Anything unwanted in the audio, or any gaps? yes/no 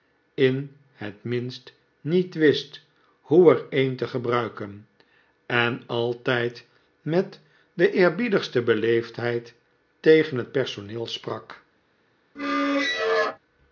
yes